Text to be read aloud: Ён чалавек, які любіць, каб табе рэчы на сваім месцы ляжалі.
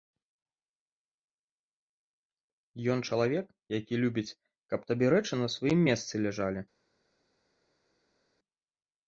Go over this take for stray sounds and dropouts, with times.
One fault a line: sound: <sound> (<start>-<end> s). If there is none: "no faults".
no faults